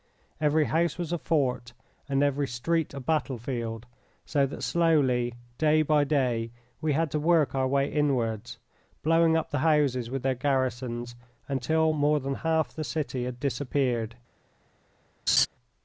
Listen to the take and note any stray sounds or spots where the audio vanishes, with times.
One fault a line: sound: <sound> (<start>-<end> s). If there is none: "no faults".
sound: laugh (15.3-15.5 s)